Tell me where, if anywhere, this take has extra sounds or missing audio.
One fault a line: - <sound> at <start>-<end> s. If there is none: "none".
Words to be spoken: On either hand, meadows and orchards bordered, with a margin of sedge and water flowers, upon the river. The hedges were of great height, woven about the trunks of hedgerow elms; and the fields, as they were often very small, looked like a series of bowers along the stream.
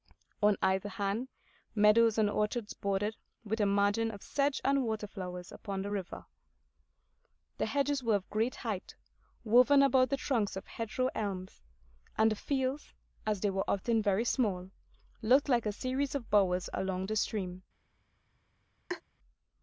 - laugh at 18.9-19.0 s